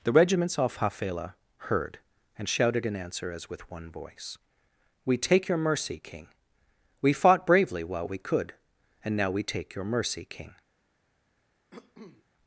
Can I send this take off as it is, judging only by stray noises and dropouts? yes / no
no